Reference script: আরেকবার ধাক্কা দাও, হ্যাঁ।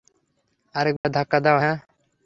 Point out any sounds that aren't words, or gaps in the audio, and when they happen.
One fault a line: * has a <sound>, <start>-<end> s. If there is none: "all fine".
* has a dropout, 1.0-1.0 s